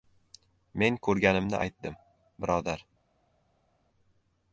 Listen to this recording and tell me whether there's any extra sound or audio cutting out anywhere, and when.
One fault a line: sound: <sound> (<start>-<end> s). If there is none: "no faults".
no faults